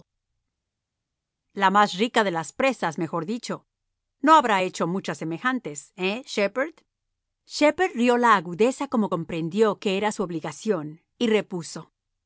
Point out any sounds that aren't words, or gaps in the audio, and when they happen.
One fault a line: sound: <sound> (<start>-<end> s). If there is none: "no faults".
no faults